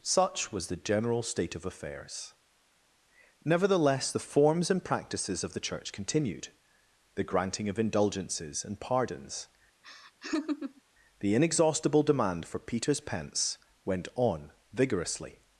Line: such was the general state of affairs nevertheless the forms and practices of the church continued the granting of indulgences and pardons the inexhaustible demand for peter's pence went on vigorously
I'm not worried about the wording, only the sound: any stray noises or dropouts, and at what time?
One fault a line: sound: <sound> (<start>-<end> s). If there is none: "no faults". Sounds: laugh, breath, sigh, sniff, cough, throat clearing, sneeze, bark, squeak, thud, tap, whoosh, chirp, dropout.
sound: laugh (9.8-10.8 s)